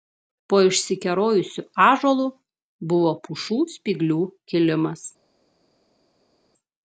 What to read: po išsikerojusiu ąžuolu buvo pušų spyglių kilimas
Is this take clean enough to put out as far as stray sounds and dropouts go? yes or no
yes